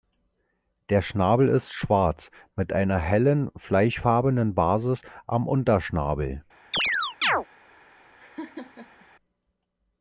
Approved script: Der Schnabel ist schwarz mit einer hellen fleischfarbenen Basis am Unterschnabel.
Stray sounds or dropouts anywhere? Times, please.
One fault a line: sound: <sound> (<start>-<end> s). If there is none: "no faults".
sound: chirp (6.7-7.5 s)
sound: laugh (8.2-9.1 s)